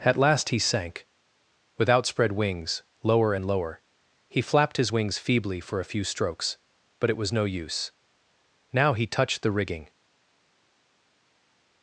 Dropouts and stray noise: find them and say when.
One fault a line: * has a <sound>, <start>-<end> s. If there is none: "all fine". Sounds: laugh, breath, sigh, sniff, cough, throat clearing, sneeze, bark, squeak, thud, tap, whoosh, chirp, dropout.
all fine